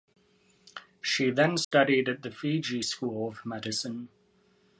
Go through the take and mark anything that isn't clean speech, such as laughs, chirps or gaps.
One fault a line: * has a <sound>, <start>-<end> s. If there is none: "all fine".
* has a dropout, 1.6-1.7 s